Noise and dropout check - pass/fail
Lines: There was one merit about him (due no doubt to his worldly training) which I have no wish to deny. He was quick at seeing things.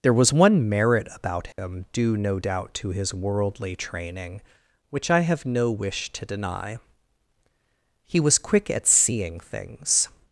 fail